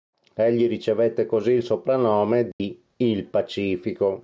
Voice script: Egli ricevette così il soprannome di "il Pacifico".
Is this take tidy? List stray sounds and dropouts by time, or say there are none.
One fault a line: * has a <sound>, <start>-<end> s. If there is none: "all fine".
* has a dropout, 2.5-2.6 s